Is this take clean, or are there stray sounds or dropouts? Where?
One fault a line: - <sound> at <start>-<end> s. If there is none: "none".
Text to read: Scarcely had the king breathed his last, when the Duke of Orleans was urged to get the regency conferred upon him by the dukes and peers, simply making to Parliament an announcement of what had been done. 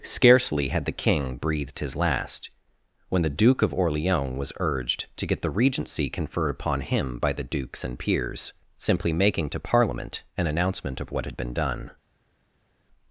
none